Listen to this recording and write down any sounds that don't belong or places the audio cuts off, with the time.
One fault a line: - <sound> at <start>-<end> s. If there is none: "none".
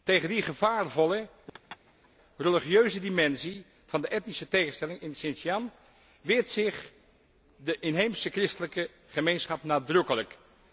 - laugh at 1.5-2.1 s